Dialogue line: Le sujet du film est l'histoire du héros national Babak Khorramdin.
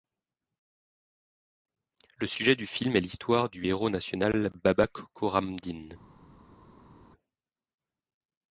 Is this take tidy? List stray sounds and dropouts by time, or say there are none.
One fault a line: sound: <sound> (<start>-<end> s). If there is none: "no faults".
no faults